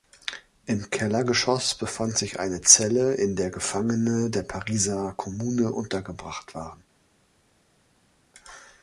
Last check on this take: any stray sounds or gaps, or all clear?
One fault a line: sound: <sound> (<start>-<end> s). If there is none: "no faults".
no faults